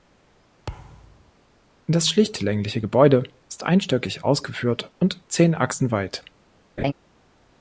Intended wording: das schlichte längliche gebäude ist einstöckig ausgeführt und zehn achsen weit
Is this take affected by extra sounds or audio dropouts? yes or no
yes